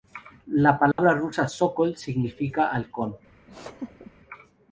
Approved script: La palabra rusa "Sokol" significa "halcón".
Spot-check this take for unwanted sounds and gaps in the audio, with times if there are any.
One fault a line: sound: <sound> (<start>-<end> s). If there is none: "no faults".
sound: dropout (0.9-1.0 s)
sound: laugh (3.5-4.1 s)